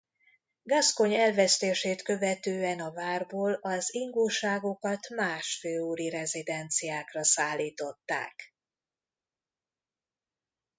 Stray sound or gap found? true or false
false